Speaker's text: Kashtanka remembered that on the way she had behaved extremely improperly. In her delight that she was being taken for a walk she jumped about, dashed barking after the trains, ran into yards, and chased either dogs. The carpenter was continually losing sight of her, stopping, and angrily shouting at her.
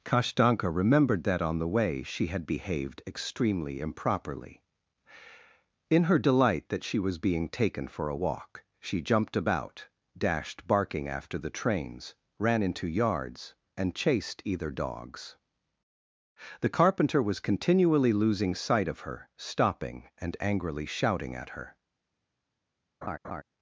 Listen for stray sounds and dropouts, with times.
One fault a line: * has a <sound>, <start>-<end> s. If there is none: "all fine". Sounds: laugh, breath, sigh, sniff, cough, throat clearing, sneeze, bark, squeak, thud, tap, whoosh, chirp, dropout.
* has a laugh, 23.0-23.4 s